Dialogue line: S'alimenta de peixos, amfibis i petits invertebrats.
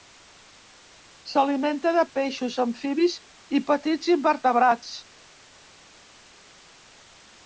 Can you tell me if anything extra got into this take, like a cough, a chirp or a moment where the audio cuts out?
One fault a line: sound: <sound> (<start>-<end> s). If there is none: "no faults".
no faults